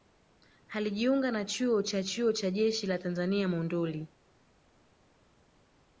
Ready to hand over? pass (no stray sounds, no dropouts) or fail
pass